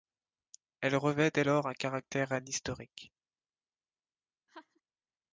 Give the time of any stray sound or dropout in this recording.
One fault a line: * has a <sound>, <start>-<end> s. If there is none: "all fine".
* has a laugh, 4.5-4.8 s